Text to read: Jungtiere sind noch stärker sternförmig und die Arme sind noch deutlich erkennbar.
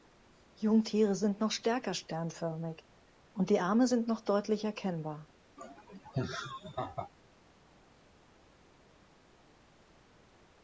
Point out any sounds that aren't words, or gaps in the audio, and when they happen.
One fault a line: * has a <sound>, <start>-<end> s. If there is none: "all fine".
* has a laugh, 5.6-7.1 s